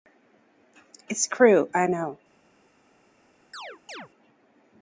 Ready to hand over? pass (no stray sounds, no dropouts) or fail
fail